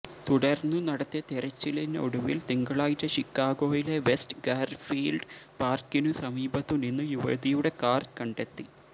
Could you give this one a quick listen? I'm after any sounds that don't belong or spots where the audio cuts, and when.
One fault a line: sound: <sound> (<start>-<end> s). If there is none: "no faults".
no faults